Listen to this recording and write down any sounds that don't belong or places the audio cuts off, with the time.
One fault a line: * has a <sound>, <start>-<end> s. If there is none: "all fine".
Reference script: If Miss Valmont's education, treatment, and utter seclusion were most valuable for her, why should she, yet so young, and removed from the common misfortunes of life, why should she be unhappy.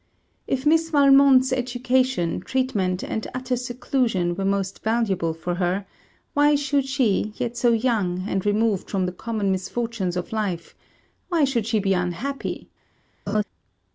* has a laugh, 13.3-13.4 s